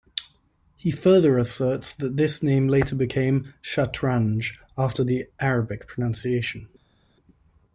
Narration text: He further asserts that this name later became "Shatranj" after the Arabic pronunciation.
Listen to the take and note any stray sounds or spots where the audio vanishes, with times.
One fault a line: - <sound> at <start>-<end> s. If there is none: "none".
none